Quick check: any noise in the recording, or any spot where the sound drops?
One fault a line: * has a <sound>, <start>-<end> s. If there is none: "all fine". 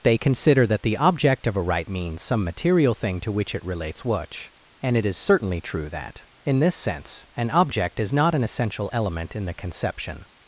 all fine